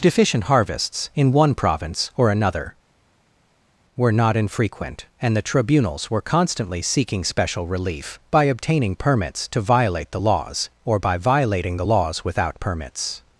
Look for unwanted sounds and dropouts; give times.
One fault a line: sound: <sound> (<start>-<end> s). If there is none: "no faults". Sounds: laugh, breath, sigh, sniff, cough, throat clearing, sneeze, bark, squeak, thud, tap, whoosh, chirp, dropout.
no faults